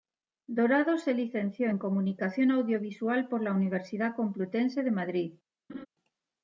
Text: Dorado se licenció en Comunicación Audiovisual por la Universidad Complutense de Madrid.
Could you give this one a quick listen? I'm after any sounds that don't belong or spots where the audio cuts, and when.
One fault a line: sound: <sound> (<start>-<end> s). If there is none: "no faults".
sound: laugh (5.7-5.9 s)